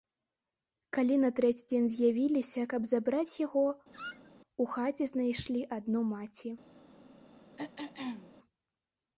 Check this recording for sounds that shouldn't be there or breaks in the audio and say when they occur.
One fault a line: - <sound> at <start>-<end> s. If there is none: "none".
- squeak at 3.9-4.3 s
- throat clearing at 7.6-8.3 s